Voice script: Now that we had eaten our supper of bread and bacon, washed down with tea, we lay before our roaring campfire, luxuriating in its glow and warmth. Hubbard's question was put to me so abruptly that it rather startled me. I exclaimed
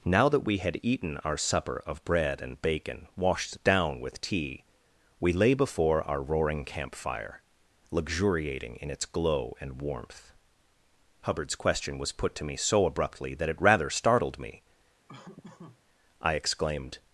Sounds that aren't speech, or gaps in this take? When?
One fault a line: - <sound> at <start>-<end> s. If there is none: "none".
- laugh at 15.1-15.8 s